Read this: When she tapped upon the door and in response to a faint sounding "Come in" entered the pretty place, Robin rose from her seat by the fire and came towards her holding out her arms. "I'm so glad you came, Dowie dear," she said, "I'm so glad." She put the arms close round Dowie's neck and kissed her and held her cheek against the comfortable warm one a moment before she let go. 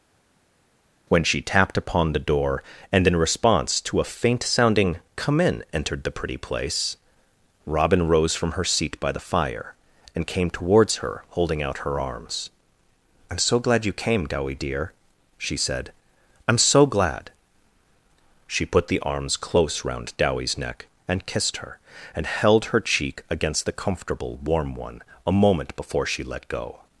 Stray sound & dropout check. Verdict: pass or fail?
pass